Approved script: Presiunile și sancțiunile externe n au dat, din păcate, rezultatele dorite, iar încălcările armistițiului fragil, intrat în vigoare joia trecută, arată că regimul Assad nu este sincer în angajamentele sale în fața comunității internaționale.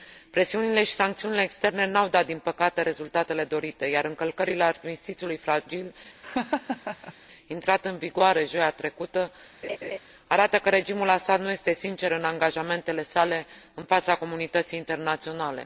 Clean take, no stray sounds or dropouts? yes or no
no